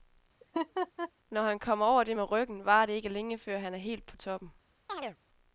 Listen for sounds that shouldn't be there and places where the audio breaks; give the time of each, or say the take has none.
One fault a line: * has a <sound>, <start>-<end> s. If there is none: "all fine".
* has a laugh, 0.4-1.1 s
* has a chirp, 4.9-5.2 s